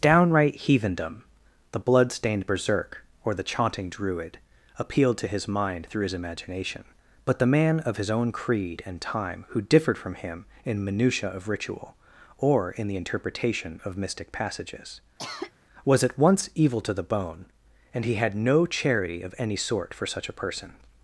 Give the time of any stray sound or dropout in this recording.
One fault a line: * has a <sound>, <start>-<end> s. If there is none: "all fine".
* has a cough, 15.2-15.5 s